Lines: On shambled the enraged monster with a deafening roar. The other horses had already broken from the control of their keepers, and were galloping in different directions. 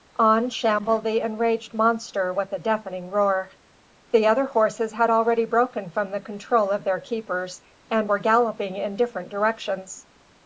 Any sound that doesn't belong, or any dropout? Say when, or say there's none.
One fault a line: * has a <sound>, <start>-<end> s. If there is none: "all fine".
all fine